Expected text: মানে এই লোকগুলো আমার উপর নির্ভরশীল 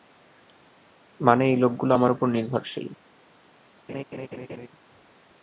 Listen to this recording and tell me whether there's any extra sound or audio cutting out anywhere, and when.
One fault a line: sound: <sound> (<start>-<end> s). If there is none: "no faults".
sound: laugh (3.9-4.7 s)